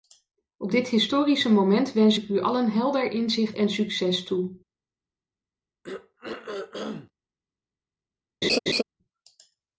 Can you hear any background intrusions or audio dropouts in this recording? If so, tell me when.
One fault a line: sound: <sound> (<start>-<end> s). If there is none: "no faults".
sound: throat clearing (5.8-7.1 s)
sound: laugh (8.4-8.8 s)